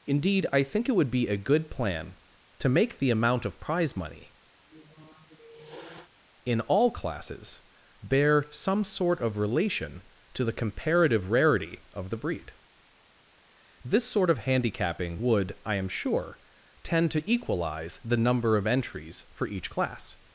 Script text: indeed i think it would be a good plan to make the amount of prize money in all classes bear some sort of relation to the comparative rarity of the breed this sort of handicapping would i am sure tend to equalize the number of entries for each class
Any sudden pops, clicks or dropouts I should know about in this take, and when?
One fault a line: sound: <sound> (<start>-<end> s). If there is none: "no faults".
sound: sniff (4.6-6.1 s)